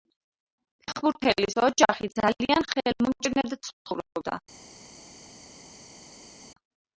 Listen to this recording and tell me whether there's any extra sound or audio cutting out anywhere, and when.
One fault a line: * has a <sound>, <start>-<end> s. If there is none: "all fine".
all fine